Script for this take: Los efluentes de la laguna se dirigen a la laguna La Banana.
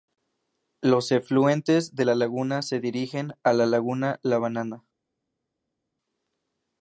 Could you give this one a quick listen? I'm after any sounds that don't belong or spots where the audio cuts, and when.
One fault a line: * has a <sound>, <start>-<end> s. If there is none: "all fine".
all fine